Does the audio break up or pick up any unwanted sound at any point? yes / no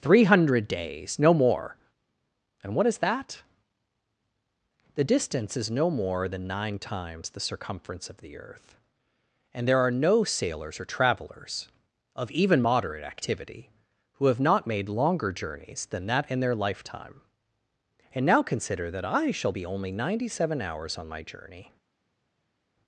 no